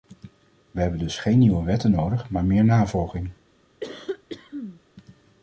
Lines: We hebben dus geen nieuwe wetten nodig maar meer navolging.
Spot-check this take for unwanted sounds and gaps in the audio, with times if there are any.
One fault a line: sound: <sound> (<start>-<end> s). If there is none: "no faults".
sound: cough (3.8-4.8 s)